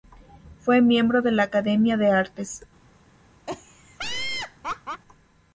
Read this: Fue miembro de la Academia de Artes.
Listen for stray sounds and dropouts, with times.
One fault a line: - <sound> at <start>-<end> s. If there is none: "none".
- laugh at 3.5-5.0 s